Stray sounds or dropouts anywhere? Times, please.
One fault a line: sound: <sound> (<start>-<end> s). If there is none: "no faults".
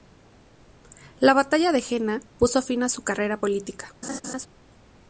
sound: laugh (4.0-4.5 s)